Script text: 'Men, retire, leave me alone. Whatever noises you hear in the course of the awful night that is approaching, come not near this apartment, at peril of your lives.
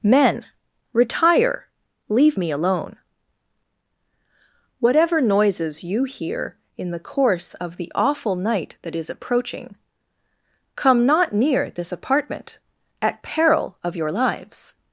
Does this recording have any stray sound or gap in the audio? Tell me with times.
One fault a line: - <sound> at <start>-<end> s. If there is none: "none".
none